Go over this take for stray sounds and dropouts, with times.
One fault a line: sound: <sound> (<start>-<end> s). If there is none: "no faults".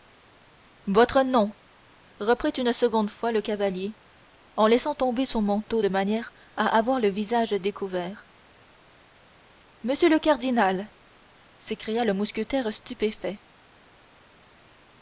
no faults